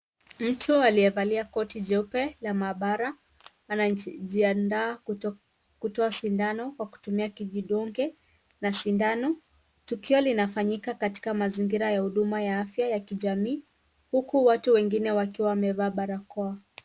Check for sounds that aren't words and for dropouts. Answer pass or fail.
pass